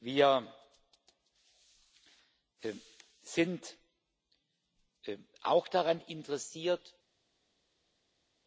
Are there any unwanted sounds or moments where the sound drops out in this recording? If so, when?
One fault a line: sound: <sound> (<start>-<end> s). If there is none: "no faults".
no faults